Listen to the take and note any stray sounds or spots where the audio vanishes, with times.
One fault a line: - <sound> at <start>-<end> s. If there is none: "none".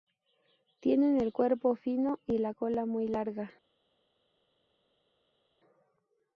none